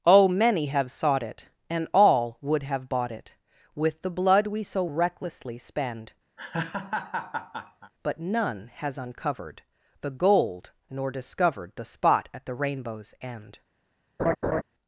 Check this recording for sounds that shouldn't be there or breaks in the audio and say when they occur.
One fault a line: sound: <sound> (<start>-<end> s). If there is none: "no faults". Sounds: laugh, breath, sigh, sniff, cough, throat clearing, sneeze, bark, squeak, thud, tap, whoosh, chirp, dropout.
sound: laugh (6.4-7.9 s)
sound: laugh (14.2-14.6 s)